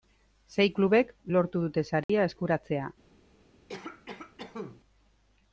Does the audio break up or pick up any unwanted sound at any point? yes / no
yes